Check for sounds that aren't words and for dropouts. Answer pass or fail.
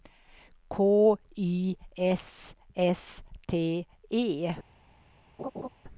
fail